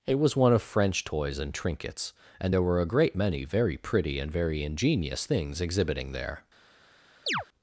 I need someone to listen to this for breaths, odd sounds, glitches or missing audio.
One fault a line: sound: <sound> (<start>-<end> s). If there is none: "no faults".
sound: chirp (7.3-7.5 s)